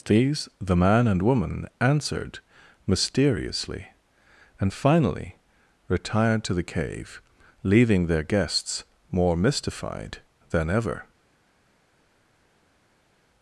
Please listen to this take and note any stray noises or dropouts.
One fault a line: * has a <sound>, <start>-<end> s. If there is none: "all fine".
all fine